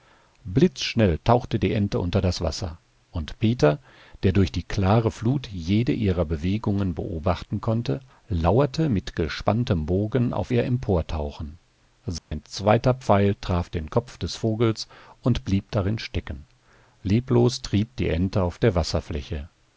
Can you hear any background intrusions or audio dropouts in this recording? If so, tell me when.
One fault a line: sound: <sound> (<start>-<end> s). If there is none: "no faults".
sound: dropout (12.2-12.3 s)